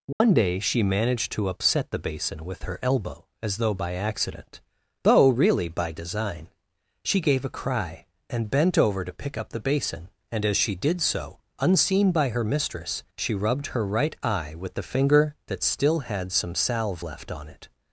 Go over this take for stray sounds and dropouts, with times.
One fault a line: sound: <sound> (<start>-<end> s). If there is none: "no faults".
sound: dropout (0.1-0.2 s)